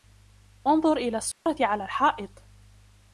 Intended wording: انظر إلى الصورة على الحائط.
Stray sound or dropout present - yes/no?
yes